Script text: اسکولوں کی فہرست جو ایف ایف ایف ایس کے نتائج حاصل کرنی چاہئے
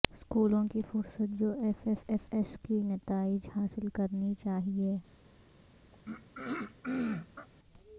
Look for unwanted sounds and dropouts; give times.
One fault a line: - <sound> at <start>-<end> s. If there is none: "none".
- throat clearing at 5.9-7.5 s